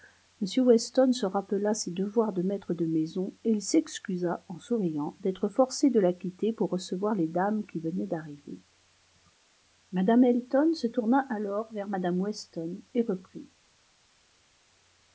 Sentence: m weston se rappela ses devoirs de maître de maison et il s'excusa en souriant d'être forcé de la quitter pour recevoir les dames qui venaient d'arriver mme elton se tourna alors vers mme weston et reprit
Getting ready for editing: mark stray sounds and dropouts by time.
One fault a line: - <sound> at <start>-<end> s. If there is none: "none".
none